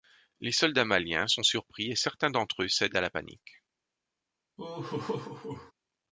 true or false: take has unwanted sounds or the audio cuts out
true